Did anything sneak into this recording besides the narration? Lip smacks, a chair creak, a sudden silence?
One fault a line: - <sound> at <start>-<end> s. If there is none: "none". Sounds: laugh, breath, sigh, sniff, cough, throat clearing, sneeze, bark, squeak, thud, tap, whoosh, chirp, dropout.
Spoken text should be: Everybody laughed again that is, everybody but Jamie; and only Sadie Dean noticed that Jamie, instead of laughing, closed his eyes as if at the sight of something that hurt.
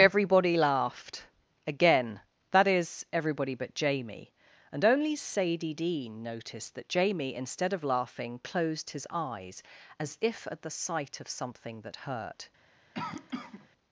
- cough at 12.9-13.7 s